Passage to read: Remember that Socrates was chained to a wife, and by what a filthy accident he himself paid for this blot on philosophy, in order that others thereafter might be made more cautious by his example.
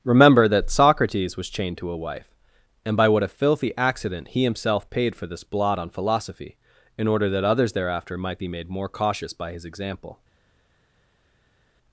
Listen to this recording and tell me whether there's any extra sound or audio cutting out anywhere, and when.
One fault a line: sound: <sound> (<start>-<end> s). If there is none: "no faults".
no faults